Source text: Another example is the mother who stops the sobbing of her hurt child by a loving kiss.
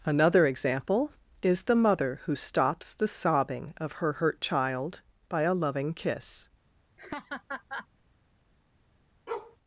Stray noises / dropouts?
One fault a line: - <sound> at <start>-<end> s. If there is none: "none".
- laugh at 7.0-7.9 s
- bark at 9.3-9.6 s